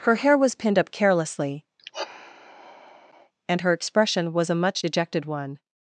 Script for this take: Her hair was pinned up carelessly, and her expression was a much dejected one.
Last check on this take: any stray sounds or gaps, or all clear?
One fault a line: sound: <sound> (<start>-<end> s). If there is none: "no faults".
sound: sigh (1.8-3.3 s)